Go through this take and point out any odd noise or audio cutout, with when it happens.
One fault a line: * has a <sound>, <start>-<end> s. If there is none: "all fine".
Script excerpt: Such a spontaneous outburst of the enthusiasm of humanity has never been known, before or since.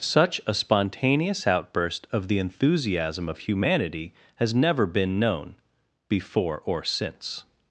all fine